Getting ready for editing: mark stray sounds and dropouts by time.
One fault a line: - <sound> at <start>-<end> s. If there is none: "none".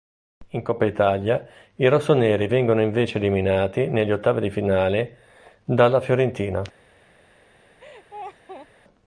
- laugh at 7.8-8.7 s